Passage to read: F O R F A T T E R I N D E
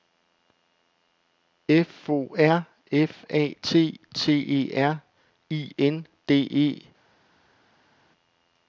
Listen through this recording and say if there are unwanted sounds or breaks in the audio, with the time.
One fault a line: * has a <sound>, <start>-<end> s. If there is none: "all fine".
all fine